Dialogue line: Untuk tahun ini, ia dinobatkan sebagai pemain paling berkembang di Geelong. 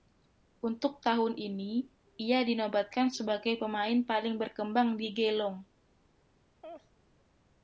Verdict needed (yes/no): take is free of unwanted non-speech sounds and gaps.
no